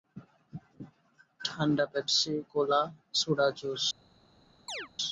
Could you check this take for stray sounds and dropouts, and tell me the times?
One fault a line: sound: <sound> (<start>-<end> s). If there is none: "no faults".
sound: chirp (4.7-4.9 s)